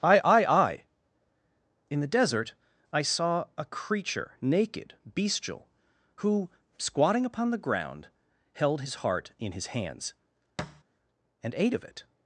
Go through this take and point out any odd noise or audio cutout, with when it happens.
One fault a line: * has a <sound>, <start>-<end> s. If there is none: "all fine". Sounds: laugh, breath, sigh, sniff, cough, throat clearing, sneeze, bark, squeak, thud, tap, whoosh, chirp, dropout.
* has a thud, 10.6-10.8 s